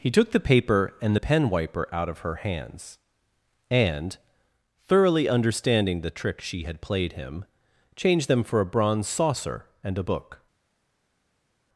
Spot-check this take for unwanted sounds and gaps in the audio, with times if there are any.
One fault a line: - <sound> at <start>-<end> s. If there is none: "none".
none